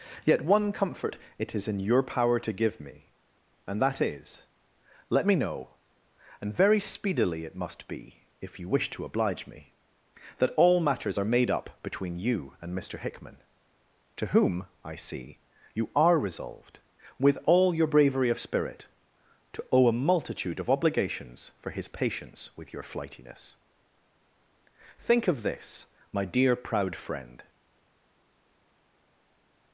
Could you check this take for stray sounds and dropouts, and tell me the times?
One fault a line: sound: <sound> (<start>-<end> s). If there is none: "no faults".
no faults